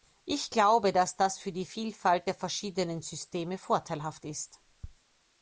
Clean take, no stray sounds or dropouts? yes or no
yes